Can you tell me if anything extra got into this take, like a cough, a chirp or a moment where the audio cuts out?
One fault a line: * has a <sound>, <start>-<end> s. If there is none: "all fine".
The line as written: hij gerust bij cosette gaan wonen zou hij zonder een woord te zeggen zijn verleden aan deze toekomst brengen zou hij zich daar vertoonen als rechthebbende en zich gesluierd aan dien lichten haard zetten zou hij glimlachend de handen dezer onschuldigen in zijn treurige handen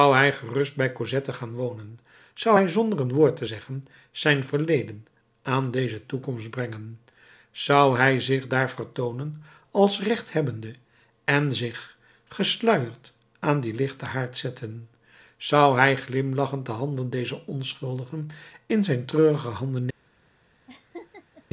* has a laugh, 20.7-21.4 s